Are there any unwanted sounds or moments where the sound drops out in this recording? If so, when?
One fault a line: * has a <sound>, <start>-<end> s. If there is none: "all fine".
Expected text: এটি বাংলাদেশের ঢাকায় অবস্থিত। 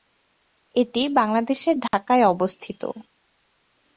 * has a dropout, 1.9-1.9 s